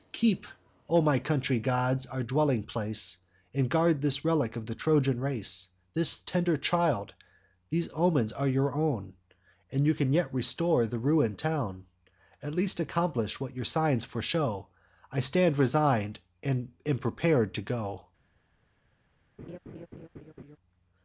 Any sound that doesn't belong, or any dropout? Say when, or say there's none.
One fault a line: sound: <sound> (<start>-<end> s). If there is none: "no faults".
sound: laugh (19.4-20.6 s)